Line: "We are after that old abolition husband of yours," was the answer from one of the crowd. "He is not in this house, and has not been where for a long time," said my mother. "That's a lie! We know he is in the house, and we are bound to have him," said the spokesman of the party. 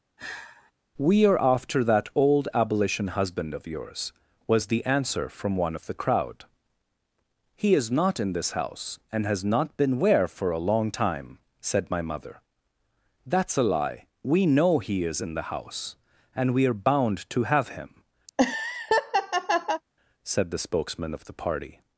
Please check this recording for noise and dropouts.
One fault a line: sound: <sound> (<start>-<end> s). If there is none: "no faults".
sound: sigh (0.2-0.7 s)
sound: laugh (18.3-19.8 s)